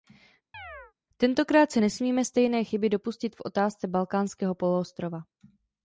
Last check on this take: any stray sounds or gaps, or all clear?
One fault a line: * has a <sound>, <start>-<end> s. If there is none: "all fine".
* has a chirp, 0.5-0.9 s